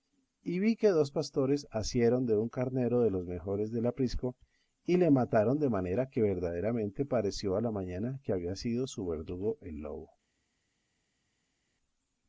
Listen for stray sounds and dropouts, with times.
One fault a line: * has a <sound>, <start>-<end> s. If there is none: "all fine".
all fine